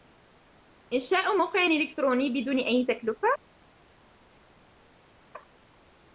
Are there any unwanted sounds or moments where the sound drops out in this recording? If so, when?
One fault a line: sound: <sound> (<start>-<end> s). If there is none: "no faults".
no faults